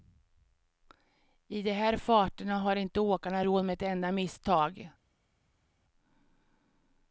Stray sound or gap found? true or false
false